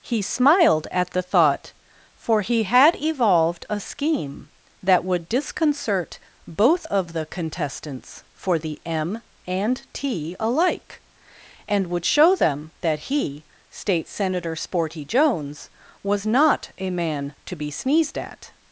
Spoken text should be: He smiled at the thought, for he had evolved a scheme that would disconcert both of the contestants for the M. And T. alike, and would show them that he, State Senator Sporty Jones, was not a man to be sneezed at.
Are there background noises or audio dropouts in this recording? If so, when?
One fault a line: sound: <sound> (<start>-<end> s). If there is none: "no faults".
no faults